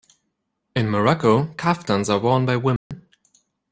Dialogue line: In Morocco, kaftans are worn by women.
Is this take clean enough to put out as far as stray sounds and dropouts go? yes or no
no